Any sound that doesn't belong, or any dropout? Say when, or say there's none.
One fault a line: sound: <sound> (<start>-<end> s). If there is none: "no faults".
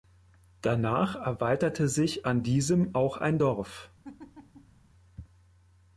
sound: laugh (4.0-4.8 s)